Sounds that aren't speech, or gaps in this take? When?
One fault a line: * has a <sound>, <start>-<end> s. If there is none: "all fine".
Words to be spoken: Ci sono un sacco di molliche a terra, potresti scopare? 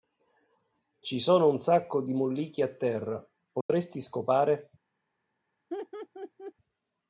* has a dropout, 3.6-3.7 s
* has a laugh, 5.7-6.5 s